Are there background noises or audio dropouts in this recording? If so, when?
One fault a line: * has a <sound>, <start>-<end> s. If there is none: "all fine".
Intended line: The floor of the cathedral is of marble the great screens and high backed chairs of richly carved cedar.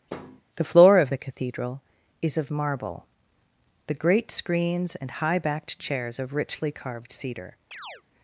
* has a thud, 0.1-0.4 s
* has a chirp, 7.7-8.0 s